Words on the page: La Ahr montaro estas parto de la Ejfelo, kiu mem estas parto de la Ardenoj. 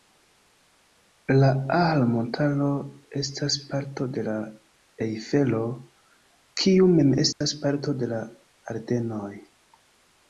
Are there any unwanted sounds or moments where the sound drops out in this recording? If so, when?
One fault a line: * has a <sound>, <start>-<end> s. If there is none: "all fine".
* has a dropout, 7.3-7.4 s